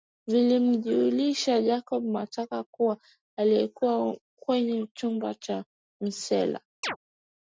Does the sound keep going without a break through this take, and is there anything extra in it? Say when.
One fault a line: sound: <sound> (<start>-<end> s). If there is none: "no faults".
sound: chirp (6.8-7.0 s)